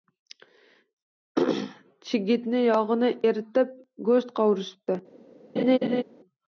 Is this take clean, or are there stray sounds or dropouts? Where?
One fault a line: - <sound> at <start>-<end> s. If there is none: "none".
- laugh at 5.6-6.0 s